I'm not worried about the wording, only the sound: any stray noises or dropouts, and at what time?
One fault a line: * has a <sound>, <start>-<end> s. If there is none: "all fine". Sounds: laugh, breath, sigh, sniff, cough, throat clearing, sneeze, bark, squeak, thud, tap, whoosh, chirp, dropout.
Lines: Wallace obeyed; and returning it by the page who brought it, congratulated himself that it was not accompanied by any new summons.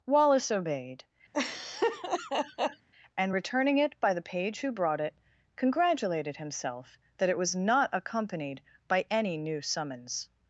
* has a laugh, 1.3-2.9 s